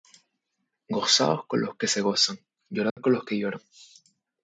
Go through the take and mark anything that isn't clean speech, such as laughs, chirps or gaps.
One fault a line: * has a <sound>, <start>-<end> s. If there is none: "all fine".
* has a dropout, 2.9-3.0 s